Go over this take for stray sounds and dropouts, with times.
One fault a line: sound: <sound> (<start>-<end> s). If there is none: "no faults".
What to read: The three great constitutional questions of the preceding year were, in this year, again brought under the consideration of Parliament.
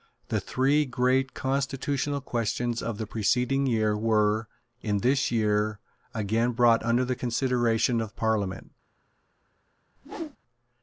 sound: whoosh (10.0-10.4 s)